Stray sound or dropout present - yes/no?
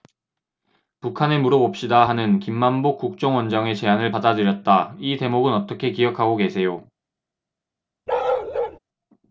yes